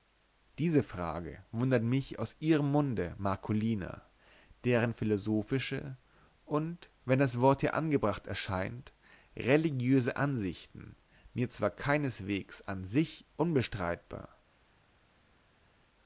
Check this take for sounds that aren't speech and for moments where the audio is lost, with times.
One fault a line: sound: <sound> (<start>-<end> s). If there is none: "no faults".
no faults